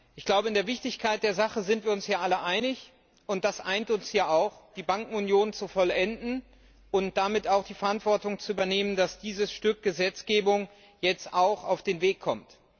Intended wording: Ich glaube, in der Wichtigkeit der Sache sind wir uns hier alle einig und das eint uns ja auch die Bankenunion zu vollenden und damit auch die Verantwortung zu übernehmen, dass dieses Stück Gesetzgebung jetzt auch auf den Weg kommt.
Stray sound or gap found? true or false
false